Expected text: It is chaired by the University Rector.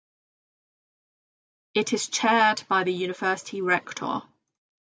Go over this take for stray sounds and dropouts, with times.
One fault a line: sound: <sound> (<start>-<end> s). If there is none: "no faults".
no faults